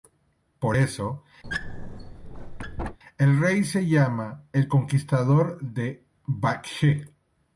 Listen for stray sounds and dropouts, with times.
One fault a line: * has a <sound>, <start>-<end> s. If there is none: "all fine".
* has a squeak, 1.4-3.0 s